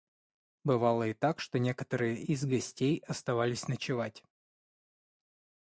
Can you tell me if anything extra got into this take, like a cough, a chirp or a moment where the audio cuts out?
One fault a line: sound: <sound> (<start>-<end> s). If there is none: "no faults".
no faults